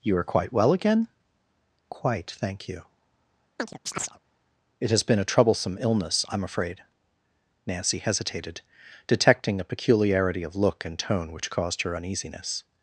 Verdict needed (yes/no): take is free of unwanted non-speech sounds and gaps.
no